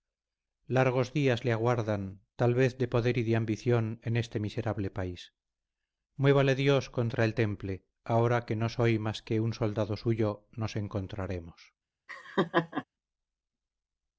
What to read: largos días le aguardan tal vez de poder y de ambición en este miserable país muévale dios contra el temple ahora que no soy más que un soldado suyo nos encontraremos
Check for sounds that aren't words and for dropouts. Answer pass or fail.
fail